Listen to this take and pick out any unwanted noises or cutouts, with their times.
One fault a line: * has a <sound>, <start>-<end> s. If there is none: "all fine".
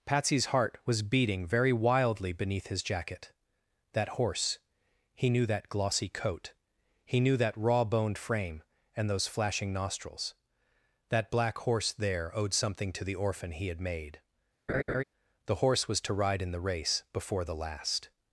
* has a laugh, 14.7-15.0 s